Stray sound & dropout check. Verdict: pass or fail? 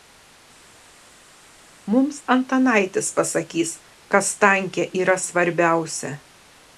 pass